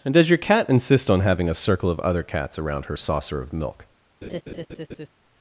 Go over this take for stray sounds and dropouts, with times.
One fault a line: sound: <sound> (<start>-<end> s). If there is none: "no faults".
sound: laugh (4.2-5.1 s)